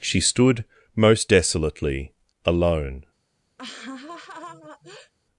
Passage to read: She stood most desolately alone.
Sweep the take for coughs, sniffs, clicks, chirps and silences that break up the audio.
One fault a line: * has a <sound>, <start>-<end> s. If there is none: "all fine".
* has a laugh, 3.6-5.1 s